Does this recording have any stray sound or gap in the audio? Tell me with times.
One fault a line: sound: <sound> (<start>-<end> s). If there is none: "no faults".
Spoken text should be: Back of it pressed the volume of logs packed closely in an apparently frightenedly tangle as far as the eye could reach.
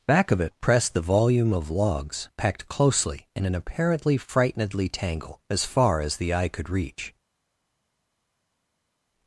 no faults